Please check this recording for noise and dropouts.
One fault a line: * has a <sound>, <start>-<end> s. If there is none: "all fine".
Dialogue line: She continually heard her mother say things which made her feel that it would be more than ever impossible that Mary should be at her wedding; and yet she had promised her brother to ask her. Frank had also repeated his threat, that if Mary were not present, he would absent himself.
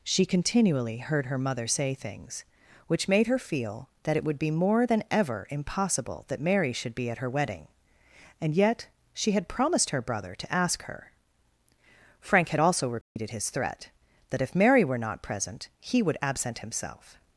* has a dropout, 13.0-13.2 s